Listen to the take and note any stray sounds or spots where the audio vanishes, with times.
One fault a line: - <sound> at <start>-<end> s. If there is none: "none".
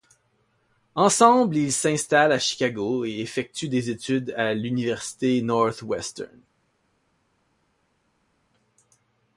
none